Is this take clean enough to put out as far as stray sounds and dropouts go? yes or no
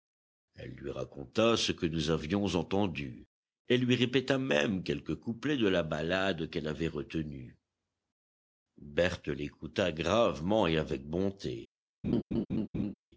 no